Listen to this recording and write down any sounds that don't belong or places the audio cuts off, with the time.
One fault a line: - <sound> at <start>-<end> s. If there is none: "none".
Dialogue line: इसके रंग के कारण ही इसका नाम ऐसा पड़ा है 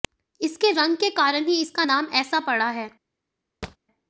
- thud at 3.6-3.8 s